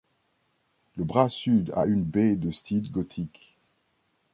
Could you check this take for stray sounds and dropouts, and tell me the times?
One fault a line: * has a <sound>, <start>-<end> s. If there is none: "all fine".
all fine